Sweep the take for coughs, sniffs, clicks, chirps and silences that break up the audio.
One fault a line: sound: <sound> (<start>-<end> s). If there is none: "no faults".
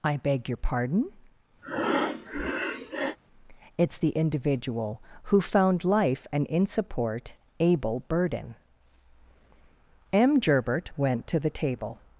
sound: breath (1.6-3.2 s)